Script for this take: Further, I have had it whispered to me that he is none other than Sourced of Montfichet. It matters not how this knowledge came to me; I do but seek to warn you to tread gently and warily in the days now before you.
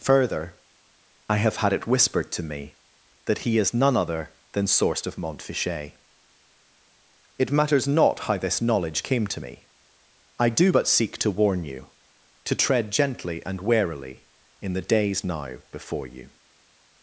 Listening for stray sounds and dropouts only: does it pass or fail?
pass